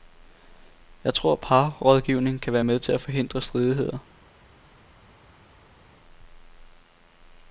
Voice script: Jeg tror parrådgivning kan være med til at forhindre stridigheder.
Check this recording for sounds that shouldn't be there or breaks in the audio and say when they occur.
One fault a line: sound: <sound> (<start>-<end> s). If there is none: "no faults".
no faults